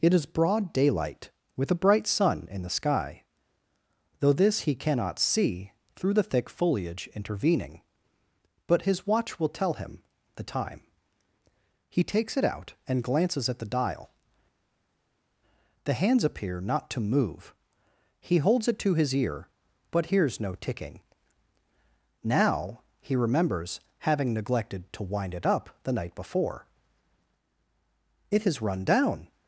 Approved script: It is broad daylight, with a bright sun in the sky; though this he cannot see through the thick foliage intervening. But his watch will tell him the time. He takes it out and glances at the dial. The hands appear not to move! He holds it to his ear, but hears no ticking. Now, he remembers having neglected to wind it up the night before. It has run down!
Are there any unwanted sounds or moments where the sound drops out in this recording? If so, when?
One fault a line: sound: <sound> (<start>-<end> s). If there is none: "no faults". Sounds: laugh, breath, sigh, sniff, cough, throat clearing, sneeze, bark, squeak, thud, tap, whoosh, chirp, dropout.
no faults